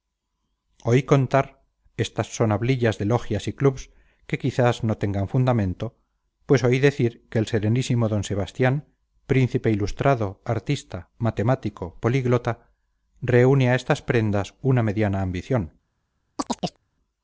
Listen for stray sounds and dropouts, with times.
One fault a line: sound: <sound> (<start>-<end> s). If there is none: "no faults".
sound: chirp (16.4-16.8 s)